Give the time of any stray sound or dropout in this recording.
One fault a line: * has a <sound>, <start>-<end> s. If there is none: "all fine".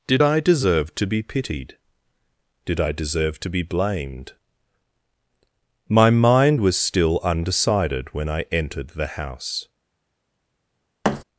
* has a thud, 11.0-11.2 s